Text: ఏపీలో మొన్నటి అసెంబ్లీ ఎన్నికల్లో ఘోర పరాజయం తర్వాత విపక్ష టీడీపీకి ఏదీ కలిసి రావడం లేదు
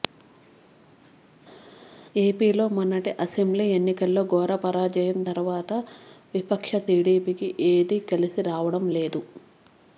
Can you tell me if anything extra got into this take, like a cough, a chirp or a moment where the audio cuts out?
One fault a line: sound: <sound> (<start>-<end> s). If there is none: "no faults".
no faults